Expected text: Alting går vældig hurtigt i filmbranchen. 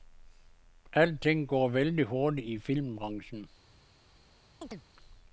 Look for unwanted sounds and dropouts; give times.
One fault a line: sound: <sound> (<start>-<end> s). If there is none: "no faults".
sound: chirp (4.6-4.8 s)